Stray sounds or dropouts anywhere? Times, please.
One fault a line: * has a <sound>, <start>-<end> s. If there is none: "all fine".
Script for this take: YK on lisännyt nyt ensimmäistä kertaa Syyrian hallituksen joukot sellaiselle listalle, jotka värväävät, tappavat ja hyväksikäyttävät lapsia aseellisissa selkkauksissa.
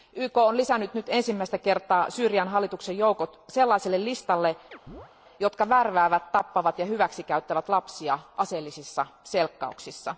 * has a chirp, 4.7-5.1 s